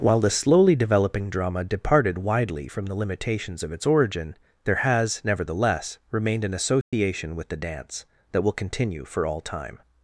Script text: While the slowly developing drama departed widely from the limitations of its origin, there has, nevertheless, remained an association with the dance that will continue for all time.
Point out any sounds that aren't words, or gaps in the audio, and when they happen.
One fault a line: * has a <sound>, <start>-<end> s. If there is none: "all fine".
* has a dropout, 6.8-6.9 s